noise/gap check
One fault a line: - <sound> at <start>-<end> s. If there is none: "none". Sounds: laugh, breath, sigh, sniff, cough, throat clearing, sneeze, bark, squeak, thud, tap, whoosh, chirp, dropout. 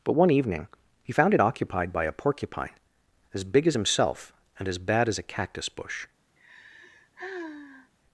- sigh at 6.4-7.9 s